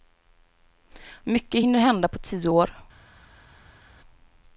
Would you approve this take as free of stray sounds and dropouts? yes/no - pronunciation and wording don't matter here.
yes